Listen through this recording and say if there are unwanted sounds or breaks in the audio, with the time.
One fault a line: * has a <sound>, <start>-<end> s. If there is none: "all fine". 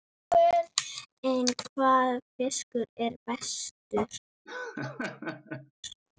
* has a laugh, 4.5-5.7 s